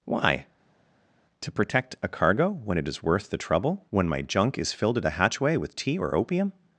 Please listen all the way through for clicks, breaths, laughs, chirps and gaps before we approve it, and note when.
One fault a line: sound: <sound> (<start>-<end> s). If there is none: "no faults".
no faults